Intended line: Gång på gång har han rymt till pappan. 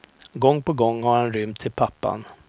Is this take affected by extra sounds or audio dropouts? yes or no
no